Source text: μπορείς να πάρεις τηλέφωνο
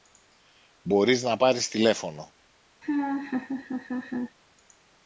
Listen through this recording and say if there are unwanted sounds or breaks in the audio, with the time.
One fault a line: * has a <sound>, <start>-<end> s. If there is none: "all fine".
* has a laugh, 2.8-4.4 s